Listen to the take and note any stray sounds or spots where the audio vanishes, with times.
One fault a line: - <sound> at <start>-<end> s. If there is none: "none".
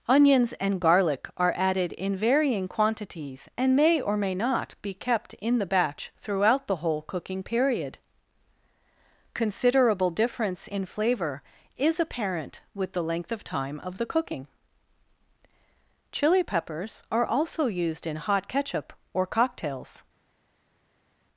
none